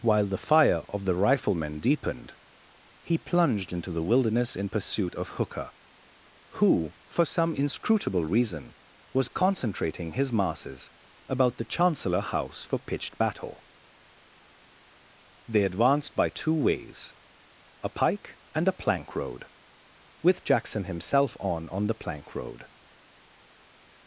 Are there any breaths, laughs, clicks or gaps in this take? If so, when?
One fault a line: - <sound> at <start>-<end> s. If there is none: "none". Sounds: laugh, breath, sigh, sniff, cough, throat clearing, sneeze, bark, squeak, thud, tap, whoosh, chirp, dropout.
none